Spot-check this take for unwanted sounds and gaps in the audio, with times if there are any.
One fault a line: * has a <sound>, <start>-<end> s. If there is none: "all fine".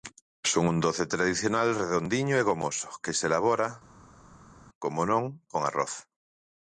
all fine